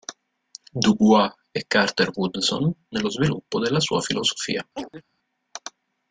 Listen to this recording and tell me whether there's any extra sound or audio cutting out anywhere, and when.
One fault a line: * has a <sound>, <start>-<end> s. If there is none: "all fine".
* has a chirp, 4.8-5.0 s